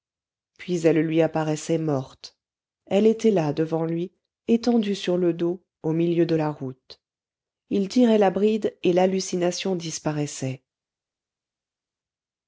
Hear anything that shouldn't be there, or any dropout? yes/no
no